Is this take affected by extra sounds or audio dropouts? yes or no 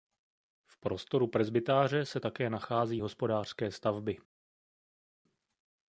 no